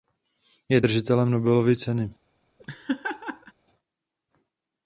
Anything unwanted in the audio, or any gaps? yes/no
yes